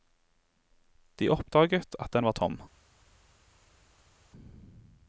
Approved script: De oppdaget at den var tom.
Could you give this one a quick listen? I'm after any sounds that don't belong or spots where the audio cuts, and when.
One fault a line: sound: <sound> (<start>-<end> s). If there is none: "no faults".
no faults